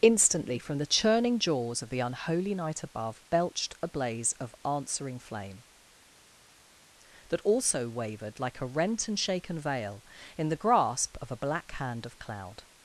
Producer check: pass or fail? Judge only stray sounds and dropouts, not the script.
pass